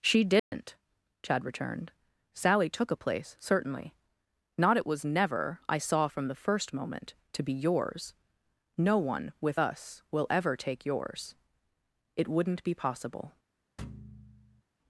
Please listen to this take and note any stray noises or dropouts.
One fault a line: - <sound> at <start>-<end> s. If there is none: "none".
- dropout at 0.4-0.5 s
- thud at 13.8-14.6 s